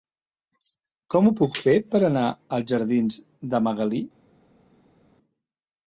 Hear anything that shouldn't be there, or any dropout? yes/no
no